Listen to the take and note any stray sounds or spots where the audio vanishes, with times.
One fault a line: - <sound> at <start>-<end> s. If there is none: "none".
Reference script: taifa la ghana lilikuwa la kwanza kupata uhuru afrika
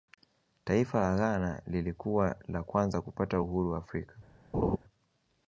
- laugh at 4.5-4.8 s